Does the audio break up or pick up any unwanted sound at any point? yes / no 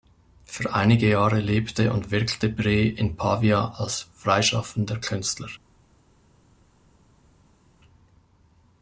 no